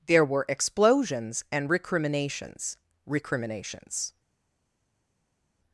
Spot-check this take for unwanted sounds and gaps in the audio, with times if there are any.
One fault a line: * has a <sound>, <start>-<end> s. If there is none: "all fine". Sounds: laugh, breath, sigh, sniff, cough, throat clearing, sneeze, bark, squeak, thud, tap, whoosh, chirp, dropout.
all fine